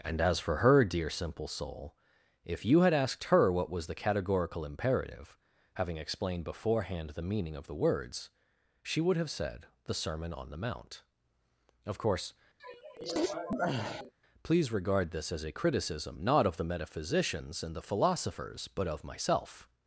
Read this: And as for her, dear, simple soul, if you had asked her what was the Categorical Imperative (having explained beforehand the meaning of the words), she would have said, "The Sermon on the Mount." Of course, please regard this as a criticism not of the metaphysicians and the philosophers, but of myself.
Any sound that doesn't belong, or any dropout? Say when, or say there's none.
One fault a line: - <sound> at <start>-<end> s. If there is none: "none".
- sneeze at 12.6-14.1 s